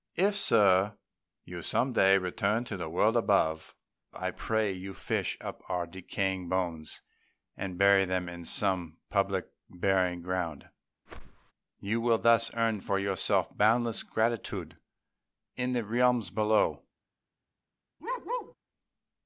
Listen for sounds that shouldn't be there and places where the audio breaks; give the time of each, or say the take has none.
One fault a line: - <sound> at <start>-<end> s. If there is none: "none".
- whoosh at 11.1-11.5 s
- bark at 18.0-18.5 s